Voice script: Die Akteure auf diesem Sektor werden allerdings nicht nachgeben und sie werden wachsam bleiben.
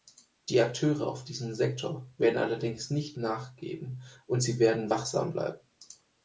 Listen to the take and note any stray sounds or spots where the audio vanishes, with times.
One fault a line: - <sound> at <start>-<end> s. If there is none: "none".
none